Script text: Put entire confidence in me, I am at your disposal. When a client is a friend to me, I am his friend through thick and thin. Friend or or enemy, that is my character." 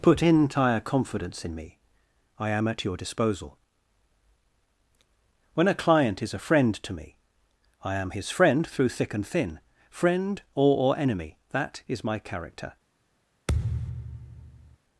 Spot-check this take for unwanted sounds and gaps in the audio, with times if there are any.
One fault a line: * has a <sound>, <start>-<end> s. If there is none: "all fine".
* has a thud, 13.5-14.8 s